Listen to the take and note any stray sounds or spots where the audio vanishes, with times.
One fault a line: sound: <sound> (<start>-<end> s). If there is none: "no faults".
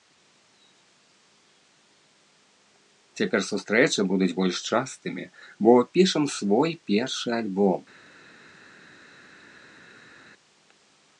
no faults